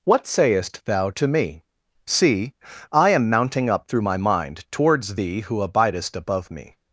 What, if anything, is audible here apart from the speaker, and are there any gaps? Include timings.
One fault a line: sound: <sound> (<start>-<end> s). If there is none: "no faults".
no faults